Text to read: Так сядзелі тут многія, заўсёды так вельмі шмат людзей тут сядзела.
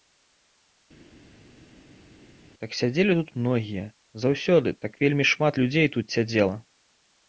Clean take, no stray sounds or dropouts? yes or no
yes